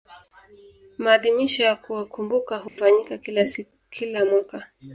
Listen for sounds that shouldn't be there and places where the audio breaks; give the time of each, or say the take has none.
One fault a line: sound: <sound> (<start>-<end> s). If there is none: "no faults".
sound: dropout (2.7-2.8 s)